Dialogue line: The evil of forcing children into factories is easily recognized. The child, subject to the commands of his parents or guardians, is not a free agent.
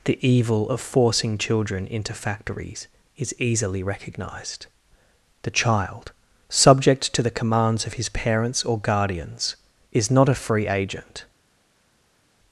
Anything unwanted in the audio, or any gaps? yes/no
no